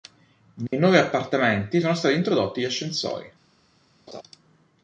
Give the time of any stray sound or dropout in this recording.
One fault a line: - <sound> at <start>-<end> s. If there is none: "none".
- dropout at 0.7-0.7 s
- laugh at 4.1-4.2 s